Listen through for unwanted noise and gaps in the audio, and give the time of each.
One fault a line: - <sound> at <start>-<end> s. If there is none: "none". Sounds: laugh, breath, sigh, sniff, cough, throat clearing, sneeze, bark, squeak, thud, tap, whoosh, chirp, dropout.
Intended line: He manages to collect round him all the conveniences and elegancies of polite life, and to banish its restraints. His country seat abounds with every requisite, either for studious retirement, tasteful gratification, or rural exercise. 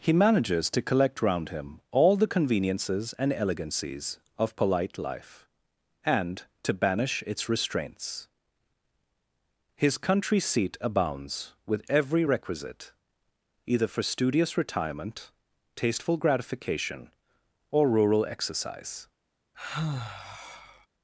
- sigh at 19.5-20.9 s